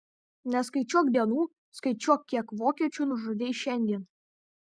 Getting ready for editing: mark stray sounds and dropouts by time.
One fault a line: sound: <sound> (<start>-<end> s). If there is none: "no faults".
no faults